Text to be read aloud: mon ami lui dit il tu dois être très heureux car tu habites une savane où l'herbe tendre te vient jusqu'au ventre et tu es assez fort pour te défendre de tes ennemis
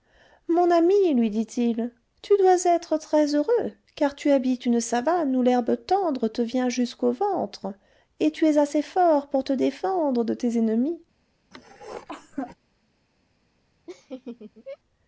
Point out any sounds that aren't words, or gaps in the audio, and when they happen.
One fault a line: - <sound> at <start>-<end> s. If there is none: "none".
- cough at 11.5-12.6 s
- laugh at 13.9-14.8 s